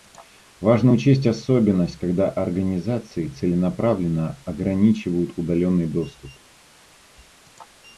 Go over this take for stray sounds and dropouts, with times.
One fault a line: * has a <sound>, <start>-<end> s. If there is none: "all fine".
all fine